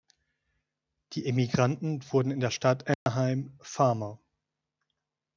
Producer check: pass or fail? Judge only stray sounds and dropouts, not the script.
fail